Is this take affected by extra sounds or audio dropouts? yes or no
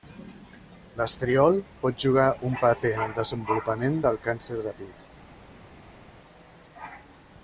no